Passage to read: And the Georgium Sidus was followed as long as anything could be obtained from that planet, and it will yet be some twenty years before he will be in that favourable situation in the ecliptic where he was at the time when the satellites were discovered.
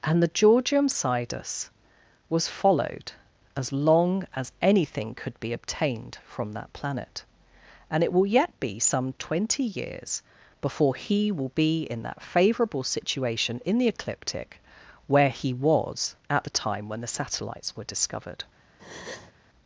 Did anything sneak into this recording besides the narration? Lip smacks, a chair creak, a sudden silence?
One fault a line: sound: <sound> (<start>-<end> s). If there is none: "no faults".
sound: breath (18.8-19.3 s)